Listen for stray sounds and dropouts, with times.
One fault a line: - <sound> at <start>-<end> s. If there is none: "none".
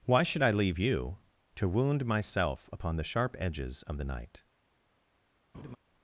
- laugh at 5.5-5.8 s